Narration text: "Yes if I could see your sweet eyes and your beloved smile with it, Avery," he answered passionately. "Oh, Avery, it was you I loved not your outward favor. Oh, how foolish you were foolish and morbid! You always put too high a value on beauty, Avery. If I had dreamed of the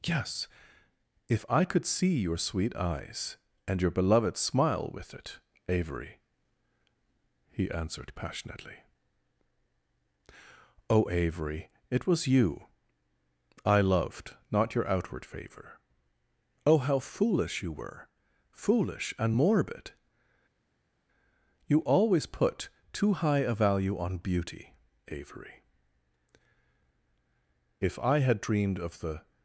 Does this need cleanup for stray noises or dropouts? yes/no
no